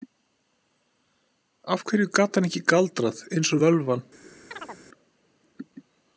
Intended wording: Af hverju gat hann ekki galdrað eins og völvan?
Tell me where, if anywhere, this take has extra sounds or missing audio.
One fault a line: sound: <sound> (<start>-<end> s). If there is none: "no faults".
sound: chirp (4.5-4.8 s)